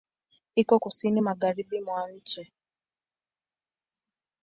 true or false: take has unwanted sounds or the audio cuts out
false